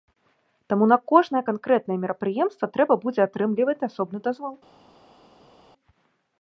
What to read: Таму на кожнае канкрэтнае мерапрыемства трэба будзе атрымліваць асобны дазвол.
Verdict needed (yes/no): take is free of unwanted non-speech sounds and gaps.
yes